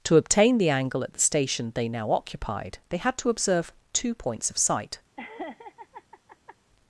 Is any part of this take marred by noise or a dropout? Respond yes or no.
yes